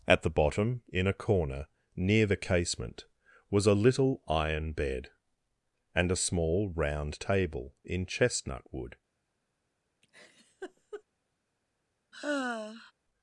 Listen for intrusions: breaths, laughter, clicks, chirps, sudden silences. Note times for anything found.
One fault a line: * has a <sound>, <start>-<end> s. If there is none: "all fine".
* has a laugh, 10.0-11.0 s
* has a sigh, 12.1-12.9 s